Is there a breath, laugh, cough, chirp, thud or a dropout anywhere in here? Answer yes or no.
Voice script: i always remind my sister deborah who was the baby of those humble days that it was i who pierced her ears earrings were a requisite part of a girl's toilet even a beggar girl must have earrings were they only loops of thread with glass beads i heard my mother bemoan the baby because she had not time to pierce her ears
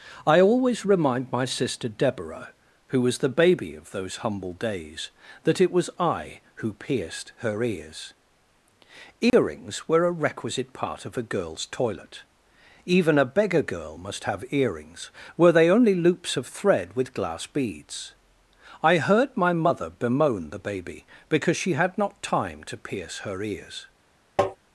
yes